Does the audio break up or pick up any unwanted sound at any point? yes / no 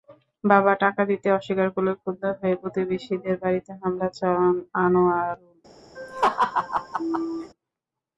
yes